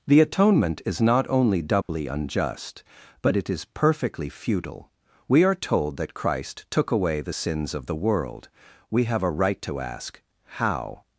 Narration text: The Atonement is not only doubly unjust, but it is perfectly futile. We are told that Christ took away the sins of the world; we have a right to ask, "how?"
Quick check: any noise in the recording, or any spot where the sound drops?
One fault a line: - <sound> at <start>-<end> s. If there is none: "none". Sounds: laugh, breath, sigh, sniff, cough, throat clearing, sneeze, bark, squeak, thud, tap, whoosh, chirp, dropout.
- dropout at 1.8-1.9 s